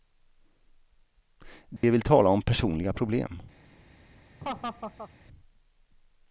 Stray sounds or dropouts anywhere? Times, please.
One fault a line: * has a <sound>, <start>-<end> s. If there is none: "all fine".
* has a dropout, 1.8-1.8 s
* has a laugh, 4.4-5.1 s